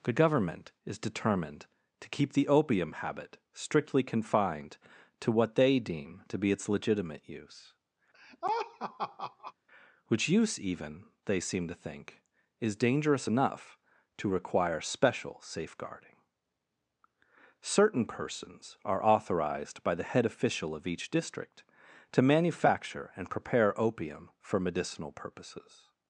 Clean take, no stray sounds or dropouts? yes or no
no